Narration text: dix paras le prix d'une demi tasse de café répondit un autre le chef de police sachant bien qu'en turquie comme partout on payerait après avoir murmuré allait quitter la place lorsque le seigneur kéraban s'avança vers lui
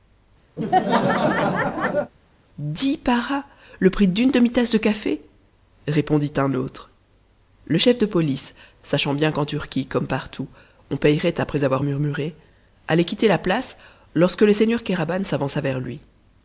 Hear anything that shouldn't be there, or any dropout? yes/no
yes